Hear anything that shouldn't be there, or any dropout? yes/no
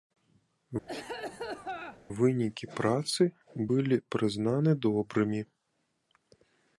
yes